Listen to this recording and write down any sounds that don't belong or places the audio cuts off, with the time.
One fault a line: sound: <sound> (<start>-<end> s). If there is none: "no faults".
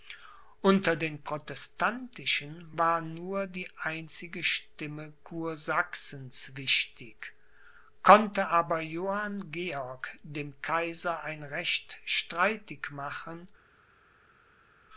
no faults